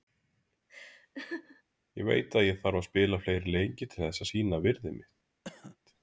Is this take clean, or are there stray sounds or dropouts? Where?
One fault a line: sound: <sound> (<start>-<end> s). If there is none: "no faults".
sound: laugh (0.7-1.6 s)
sound: cough (5.4-5.8 s)